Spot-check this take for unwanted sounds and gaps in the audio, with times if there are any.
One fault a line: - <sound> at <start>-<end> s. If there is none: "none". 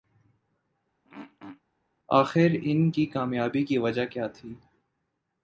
- throat clearing at 1.0-1.6 s